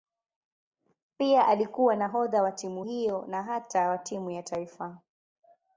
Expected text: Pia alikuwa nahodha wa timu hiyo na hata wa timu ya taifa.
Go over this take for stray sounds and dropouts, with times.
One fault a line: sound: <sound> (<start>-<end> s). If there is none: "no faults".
no faults